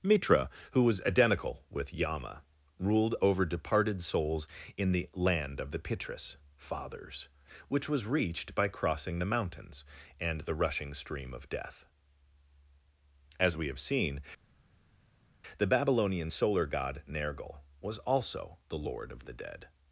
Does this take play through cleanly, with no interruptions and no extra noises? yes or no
yes